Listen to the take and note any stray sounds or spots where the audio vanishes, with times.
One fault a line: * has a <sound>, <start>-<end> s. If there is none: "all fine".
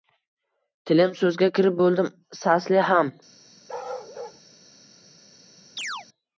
* has a bark, 3.7-4.4 s
* has a chirp, 5.8-6.1 s